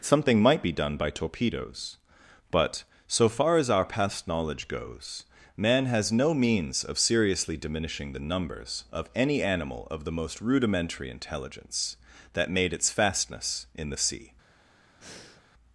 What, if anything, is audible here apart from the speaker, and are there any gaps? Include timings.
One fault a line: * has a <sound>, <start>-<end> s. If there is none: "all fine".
* has a breath, 15.0-15.4 s